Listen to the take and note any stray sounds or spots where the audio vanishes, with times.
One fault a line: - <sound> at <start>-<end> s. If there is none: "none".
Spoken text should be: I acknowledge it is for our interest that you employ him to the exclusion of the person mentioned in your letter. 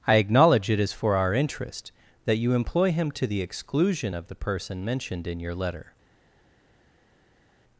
none